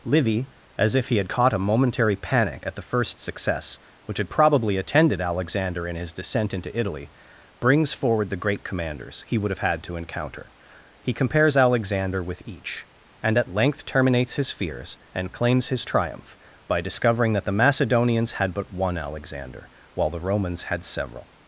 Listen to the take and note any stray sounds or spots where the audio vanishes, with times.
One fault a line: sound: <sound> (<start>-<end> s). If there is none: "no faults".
no faults